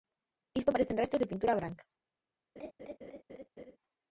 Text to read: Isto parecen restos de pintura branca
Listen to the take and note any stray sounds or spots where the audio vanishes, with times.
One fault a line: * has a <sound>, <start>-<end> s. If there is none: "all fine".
* has a laugh, 2.6-3.8 s